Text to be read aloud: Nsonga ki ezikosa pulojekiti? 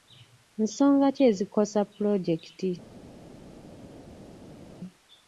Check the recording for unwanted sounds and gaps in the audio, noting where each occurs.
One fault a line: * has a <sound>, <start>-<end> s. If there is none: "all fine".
all fine